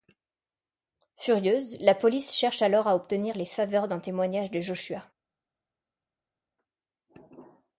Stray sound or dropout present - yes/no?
no